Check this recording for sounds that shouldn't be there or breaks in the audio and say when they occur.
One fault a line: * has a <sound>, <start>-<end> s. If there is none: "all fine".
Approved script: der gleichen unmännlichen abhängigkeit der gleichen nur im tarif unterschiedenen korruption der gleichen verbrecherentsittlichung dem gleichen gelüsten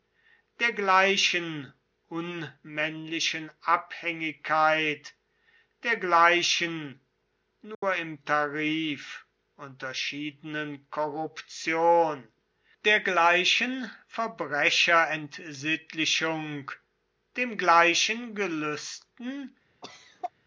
* has a dropout, 7.7-7.8 s
* has a cough, 19.8-20.3 s